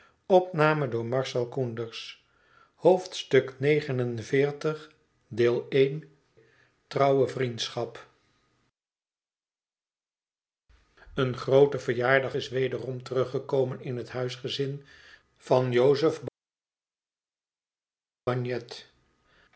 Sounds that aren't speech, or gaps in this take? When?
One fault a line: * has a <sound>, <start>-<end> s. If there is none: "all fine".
all fine